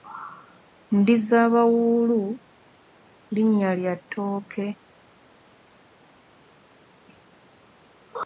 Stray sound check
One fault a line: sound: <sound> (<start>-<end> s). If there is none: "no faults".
no faults